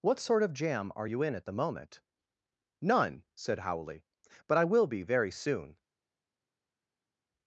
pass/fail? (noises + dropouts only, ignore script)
pass